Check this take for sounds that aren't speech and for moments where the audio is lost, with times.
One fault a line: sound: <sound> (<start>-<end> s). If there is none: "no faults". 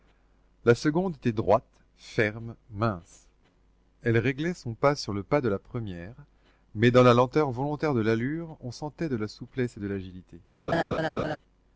sound: laugh (10.7-11.4 s)